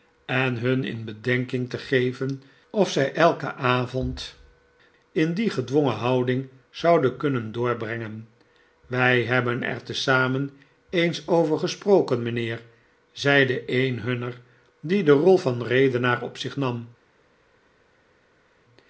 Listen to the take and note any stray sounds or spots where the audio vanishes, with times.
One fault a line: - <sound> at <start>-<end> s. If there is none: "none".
none